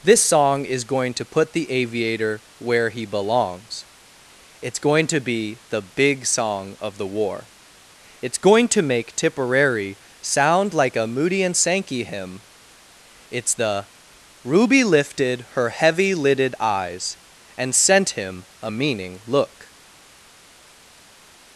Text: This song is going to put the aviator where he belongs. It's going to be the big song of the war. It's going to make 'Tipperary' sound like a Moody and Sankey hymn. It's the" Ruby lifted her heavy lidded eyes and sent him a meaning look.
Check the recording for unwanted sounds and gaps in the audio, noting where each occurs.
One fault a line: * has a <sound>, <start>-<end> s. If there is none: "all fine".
all fine